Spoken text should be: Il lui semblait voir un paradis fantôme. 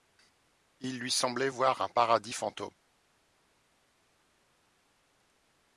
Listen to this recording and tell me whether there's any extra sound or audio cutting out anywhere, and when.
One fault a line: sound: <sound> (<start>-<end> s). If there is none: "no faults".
no faults